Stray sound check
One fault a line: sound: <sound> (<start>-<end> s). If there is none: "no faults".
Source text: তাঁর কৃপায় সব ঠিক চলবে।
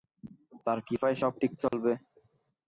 sound: dropout (1.7-1.7 s)